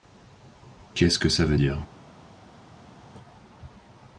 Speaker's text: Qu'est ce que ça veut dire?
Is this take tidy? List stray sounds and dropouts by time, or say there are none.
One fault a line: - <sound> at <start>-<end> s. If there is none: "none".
none